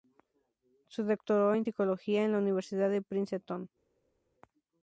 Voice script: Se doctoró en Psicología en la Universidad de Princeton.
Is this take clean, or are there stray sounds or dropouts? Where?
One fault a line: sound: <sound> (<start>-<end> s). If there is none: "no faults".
no faults